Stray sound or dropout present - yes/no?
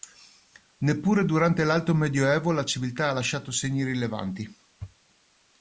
no